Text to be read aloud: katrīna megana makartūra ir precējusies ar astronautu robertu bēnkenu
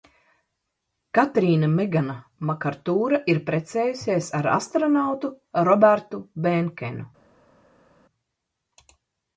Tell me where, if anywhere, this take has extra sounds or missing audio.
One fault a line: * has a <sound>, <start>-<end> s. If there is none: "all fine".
all fine